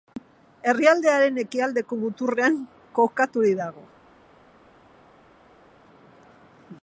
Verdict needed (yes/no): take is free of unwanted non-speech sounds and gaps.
yes